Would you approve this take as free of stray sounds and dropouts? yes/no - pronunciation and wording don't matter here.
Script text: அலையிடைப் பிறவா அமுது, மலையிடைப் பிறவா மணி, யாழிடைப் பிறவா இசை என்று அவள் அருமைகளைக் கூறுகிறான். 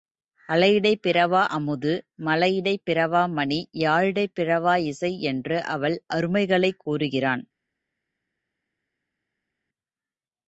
yes